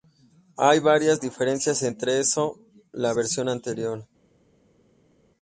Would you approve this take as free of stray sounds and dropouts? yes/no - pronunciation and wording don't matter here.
yes